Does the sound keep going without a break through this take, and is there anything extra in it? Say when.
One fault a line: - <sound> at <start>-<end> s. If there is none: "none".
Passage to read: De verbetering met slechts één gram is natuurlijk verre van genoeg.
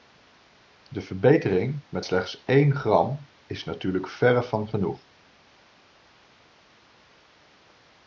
none